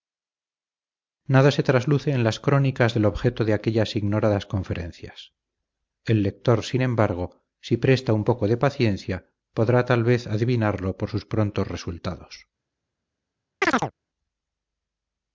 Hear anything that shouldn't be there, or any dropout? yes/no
yes